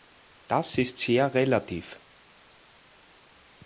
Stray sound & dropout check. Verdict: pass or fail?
pass